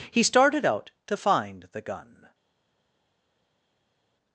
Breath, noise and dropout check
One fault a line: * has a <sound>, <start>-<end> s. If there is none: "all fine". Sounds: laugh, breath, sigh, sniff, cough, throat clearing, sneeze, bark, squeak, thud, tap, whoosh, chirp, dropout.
all fine